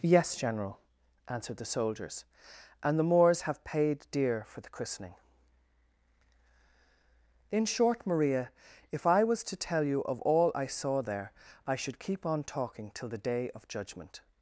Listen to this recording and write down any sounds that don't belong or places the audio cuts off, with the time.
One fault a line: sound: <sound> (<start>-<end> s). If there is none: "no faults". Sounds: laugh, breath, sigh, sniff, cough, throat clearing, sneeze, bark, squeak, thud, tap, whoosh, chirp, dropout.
no faults